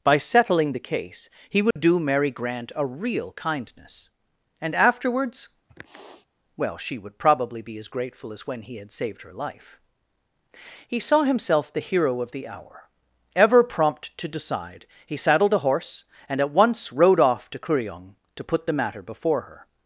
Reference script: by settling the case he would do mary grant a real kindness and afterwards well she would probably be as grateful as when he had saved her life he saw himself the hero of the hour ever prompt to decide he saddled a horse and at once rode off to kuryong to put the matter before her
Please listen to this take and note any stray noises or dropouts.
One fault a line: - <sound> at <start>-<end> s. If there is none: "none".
- dropout at 1.7-1.8 s
- sniff at 5.7-6.3 s